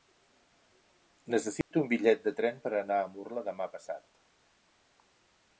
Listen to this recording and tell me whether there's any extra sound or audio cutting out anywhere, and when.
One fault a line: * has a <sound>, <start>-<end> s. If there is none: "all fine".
* has a dropout, 1.6-1.7 s